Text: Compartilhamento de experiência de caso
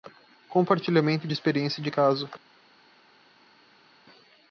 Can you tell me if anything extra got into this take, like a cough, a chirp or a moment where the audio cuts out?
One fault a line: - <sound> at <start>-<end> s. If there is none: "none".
none